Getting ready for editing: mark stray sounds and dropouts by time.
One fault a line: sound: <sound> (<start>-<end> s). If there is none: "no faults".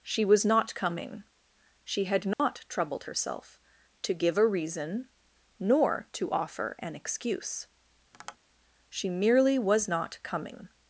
sound: dropout (2.3-2.4 s)
sound: tap (8.1-8.4 s)